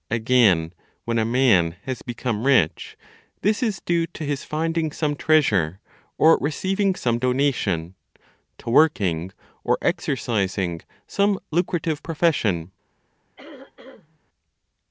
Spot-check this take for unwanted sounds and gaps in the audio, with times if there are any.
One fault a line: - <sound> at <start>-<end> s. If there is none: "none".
- throat clearing at 13.4-14.2 s